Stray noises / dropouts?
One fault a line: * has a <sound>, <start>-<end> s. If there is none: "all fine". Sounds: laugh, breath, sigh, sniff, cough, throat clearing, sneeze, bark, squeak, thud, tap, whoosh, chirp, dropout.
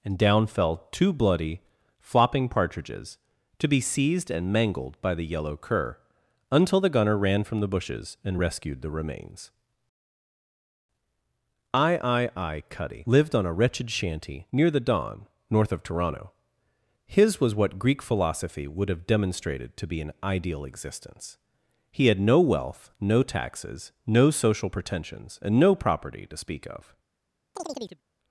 * has a chirp, 27.5-28.0 s